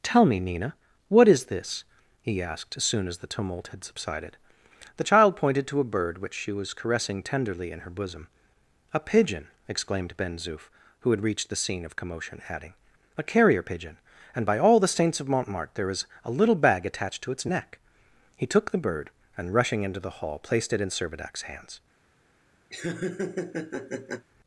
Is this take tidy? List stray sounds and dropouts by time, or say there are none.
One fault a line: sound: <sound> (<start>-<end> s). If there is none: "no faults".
sound: laugh (22.7-24.3 s)